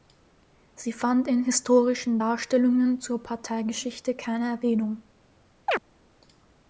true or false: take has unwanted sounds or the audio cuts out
true